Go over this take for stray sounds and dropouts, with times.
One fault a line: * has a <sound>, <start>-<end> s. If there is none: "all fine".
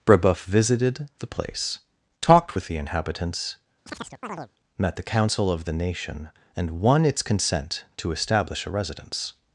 * has a chirp, 3.9-4.5 s